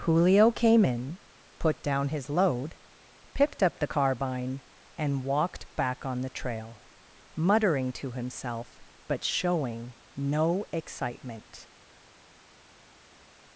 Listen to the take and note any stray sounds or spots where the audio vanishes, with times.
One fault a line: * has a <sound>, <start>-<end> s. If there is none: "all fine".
all fine